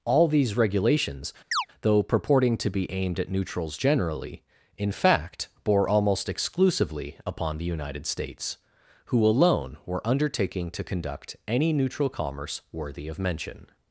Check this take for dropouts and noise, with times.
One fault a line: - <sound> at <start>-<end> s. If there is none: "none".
- chirp at 1.5-1.7 s